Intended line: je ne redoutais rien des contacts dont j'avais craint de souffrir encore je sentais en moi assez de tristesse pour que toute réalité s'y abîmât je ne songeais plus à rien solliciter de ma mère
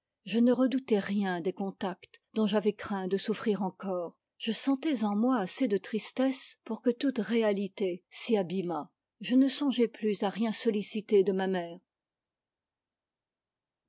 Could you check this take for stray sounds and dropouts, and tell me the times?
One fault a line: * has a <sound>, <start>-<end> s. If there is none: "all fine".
all fine